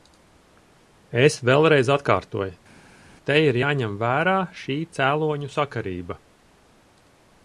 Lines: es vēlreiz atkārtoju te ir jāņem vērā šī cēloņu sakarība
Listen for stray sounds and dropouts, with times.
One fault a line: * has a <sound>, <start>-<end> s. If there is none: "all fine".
all fine